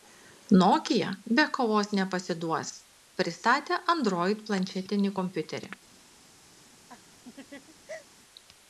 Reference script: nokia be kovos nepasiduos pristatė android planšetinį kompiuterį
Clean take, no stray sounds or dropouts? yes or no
no